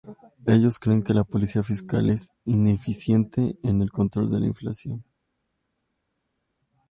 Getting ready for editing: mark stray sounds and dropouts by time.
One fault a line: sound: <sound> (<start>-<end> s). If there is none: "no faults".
no faults